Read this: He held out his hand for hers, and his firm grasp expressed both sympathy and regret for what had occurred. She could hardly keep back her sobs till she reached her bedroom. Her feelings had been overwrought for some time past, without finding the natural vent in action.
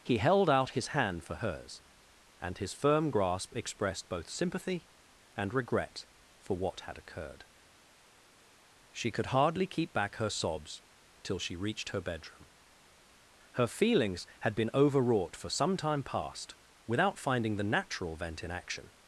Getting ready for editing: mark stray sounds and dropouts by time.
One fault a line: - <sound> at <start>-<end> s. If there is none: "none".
none